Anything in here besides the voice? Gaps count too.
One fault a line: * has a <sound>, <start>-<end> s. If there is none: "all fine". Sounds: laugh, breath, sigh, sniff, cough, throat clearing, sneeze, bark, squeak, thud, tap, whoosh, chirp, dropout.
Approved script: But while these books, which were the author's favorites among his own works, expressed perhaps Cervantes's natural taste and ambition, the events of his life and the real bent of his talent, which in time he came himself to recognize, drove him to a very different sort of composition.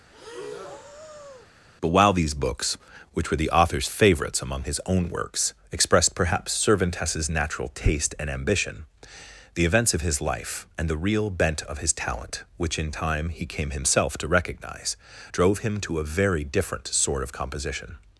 * has a breath, 0.1-1.5 s